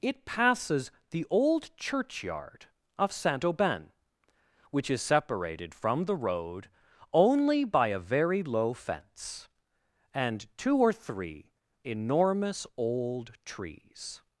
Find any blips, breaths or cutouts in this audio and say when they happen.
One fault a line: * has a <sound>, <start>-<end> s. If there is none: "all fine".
all fine